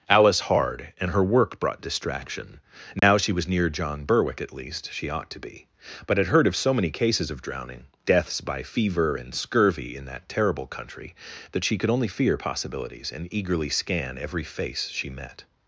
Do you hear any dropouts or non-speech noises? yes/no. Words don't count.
yes